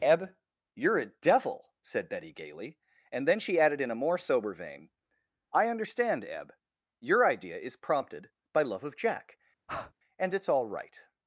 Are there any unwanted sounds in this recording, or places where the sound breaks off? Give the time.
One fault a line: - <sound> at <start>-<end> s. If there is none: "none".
- breath at 9.7-9.9 s